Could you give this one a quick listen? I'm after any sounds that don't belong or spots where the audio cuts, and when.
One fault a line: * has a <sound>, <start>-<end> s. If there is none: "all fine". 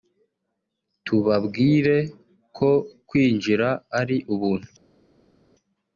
all fine